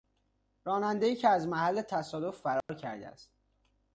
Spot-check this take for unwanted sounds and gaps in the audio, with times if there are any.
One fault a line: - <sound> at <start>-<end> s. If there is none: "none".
- dropout at 2.6-2.7 s